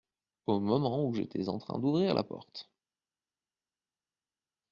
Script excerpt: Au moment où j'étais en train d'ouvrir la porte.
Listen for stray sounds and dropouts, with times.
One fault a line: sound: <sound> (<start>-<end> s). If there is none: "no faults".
no faults